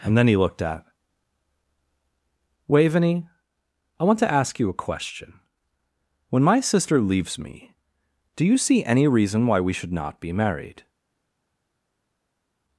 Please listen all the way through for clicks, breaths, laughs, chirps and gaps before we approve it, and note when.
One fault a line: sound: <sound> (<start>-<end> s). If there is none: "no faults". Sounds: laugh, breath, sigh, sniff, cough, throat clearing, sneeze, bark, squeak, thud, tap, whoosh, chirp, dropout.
no faults